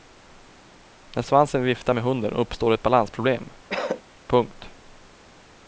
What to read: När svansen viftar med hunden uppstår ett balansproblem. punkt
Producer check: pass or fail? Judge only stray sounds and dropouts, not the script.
fail